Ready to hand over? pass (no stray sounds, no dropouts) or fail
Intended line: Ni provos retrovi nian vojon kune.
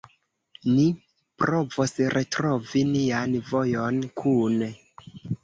pass